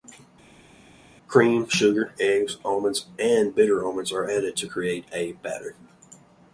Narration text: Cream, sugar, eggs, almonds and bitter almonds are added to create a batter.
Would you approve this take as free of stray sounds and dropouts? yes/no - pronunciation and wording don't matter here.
yes